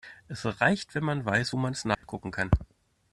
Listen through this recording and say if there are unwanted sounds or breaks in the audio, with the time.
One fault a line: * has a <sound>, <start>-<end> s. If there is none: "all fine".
* has a dropout, 1.9-2.0 s